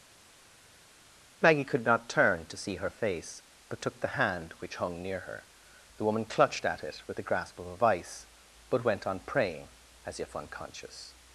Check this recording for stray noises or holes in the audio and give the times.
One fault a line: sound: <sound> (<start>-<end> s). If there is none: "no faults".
no faults